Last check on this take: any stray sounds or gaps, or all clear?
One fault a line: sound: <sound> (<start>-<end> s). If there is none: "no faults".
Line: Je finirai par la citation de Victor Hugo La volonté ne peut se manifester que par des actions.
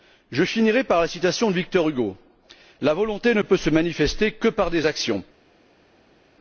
no faults